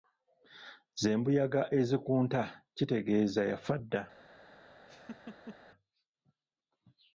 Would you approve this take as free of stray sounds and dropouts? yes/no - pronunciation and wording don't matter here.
no